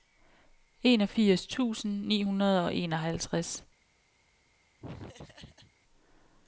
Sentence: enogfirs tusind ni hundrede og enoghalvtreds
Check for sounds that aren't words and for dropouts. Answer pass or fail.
fail